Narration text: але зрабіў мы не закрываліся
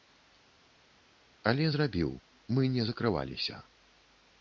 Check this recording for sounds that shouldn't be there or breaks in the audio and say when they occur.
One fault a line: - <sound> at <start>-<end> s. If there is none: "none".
none